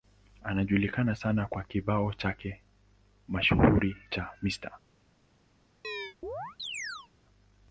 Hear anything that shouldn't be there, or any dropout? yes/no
yes